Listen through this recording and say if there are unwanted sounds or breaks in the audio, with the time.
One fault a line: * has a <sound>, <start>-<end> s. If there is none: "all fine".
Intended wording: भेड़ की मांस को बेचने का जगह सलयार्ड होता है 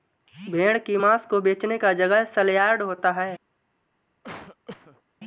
* has a cough, 4.2-5.0 s